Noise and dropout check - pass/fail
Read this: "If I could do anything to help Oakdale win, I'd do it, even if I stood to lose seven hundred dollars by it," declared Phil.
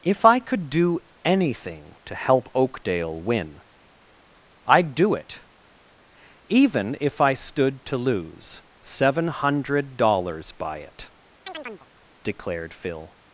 fail